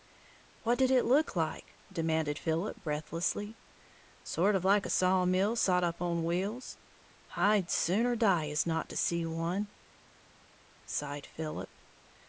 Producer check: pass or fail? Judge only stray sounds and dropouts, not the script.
pass